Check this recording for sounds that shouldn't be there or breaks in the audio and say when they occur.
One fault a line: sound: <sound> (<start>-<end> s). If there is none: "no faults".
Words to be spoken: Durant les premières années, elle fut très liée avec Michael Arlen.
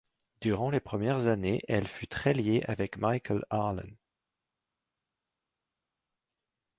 no faults